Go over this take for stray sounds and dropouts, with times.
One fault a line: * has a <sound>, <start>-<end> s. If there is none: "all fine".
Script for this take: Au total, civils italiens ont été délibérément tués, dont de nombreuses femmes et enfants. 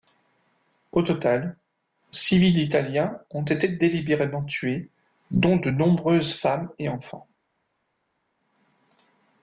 all fine